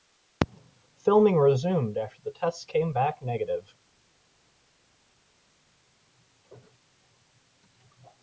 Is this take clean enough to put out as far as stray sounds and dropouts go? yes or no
yes